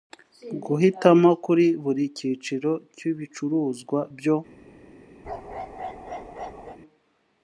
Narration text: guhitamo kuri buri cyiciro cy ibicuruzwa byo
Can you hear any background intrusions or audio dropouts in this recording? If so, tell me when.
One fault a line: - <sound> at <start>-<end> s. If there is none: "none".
- bark at 5.2-6.8 s